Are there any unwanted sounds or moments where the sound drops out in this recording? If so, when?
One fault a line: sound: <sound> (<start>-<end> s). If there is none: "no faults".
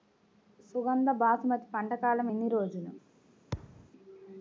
sound: thud (3.5-3.9 s)